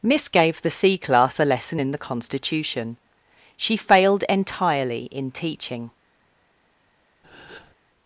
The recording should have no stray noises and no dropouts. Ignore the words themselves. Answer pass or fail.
fail